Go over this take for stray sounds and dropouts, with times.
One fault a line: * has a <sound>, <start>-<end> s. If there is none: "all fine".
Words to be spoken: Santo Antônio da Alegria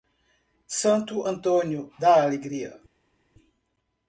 all fine